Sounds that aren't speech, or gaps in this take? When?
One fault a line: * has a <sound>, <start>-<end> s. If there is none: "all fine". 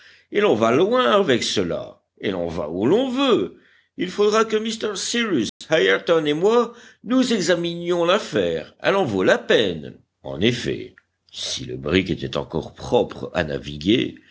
* has a dropout, 5.5-5.6 s